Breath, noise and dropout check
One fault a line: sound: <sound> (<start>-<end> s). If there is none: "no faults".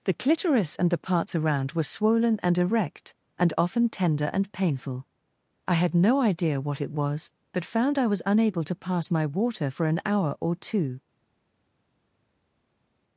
no faults